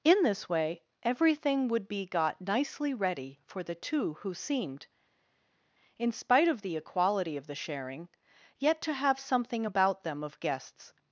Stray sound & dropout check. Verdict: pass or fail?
pass